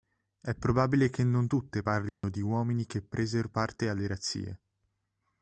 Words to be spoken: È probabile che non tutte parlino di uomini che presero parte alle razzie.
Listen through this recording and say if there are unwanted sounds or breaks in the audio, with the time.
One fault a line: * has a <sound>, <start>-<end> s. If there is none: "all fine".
* has a dropout, 2.1-2.2 s